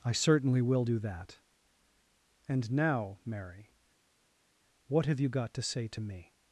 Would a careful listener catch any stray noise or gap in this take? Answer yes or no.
no